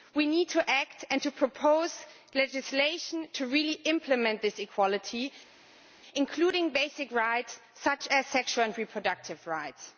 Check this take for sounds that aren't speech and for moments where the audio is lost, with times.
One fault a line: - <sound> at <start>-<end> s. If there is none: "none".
none